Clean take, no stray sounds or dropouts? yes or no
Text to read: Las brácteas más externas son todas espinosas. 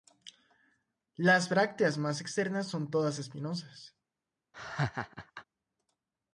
no